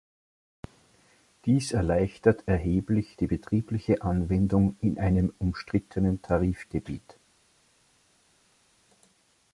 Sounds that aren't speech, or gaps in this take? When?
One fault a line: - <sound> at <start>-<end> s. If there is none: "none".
none